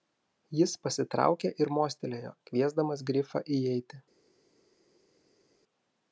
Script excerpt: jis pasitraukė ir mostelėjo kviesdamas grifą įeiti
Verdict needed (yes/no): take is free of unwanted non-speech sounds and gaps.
yes